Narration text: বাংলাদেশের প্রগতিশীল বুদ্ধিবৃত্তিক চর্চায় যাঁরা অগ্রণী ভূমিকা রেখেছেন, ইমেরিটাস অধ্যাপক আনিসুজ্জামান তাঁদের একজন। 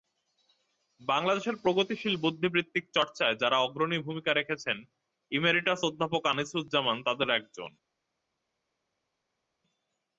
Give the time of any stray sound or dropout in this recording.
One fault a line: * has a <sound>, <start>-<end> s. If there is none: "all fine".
all fine